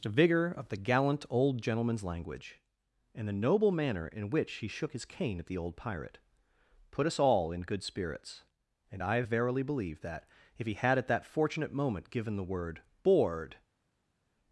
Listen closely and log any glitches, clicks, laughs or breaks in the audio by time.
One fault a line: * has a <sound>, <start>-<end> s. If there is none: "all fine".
all fine